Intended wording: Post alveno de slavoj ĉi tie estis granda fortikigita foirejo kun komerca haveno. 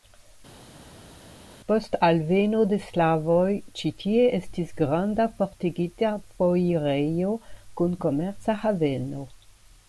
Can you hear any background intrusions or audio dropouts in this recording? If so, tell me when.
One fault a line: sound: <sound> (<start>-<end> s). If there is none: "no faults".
no faults